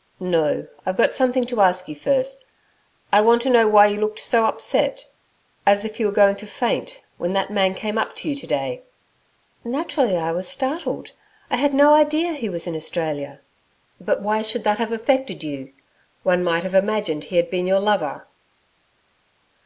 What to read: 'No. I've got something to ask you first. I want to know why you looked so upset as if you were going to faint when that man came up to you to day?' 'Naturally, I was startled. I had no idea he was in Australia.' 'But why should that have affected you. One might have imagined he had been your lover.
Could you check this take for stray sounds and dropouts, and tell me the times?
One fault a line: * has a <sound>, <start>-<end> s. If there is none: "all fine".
all fine